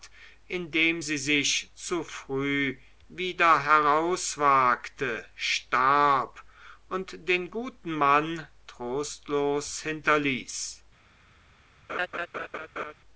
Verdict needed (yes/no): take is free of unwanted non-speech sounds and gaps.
no